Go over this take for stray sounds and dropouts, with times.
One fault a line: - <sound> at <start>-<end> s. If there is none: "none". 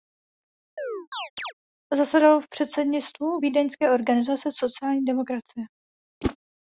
- chirp at 0.8-1.5 s
- whoosh at 6.2-6.4 s